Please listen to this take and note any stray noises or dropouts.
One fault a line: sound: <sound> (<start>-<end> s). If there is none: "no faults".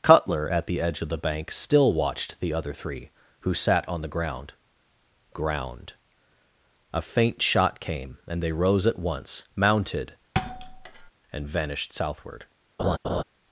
sound: thud (10.3-11.1 s)
sound: laugh (12.8-13.2 s)